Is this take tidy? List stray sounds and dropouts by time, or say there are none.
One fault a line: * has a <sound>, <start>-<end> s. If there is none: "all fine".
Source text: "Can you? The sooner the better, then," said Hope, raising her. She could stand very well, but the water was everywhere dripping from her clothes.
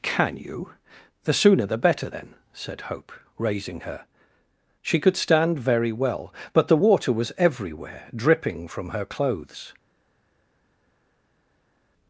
all fine